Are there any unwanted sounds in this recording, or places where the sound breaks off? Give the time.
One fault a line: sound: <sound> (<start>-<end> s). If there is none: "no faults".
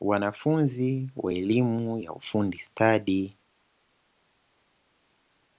no faults